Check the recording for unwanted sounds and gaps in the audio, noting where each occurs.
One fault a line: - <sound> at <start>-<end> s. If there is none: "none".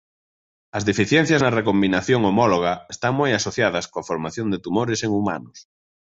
none